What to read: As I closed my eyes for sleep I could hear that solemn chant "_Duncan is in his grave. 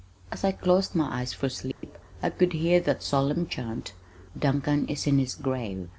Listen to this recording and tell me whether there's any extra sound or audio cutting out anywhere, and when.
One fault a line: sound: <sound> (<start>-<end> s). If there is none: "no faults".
sound: dropout (1.7-1.8 s)